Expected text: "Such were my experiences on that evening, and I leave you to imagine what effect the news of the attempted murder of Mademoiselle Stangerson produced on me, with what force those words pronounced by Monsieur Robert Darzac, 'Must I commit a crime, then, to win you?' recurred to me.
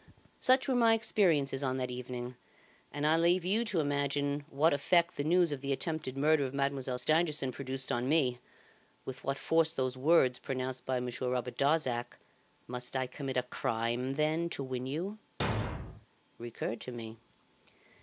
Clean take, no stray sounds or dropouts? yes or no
no